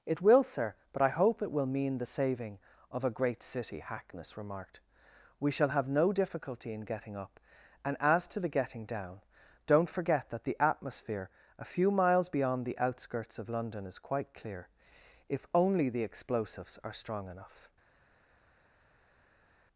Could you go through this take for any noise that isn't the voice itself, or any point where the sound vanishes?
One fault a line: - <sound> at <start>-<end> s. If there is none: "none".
none